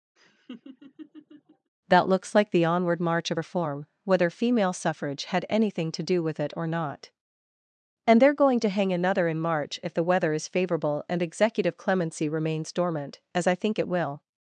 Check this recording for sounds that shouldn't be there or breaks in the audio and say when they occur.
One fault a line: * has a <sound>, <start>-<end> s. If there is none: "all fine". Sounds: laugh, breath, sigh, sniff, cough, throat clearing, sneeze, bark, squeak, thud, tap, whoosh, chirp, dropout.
* has a laugh, 0.2-1.7 s